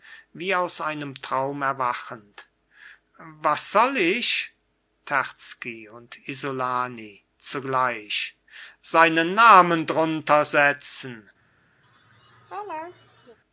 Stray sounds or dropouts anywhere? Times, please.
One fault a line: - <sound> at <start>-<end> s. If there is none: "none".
- laugh at 11.8-13.4 s